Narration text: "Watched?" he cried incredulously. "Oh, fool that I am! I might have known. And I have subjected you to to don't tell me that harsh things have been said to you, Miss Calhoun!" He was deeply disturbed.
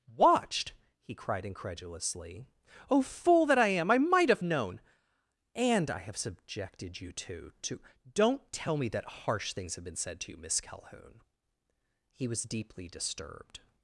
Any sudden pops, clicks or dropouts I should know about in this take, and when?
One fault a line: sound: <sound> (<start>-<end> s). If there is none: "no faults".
no faults